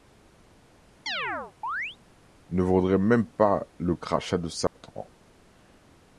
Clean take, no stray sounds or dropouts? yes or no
no